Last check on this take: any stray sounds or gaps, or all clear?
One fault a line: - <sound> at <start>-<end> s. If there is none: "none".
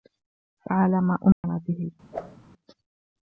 - dropout at 1.3-1.4 s
- whoosh at 2.1-2.4 s